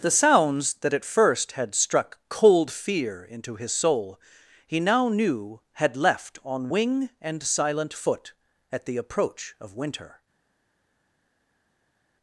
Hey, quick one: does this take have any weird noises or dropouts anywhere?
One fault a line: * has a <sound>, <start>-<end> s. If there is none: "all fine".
all fine